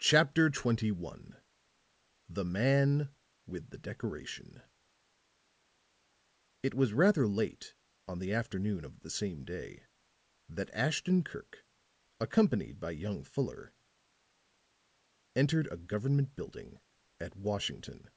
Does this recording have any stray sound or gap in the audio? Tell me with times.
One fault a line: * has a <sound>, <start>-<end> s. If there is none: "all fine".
all fine